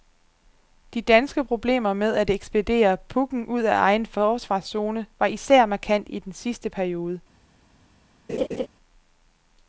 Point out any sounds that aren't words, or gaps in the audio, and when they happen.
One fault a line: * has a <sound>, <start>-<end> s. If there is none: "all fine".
* has a laugh, 8.3-8.7 s